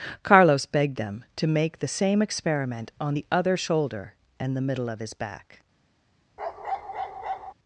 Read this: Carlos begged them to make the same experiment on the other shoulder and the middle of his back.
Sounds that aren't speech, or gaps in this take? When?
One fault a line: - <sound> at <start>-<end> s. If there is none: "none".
- bark at 6.4-7.5 s